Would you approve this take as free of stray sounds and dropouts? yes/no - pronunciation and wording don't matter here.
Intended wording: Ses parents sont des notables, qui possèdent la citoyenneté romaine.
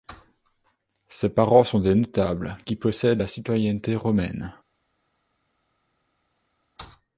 yes